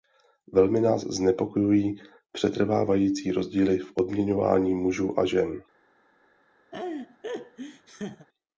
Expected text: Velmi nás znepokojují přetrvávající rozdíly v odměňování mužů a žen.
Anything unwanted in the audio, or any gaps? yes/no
yes